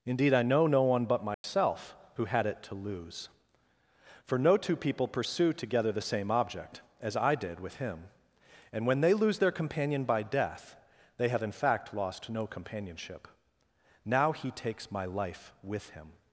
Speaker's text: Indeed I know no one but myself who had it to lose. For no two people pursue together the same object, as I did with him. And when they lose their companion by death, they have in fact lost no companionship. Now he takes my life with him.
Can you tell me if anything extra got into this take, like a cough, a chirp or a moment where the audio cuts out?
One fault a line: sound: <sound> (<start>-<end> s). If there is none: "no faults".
sound: dropout (1.3-1.4 s)